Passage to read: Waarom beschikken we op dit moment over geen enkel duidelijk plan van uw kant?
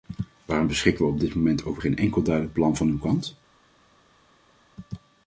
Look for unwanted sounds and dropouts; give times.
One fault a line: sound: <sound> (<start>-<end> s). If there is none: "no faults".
no faults